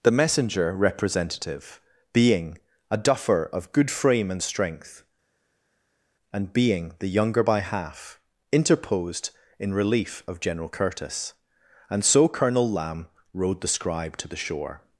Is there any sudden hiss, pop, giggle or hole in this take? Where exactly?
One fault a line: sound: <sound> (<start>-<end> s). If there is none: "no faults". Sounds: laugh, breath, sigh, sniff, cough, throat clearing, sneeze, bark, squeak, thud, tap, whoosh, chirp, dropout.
no faults